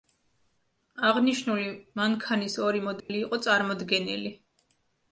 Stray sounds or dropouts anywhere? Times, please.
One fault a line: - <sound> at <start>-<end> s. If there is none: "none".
- dropout at 3.0-3.1 s